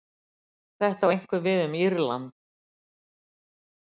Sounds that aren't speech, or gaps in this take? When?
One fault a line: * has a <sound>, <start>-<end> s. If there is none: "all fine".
all fine